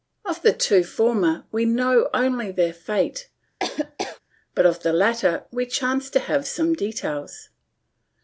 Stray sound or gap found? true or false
true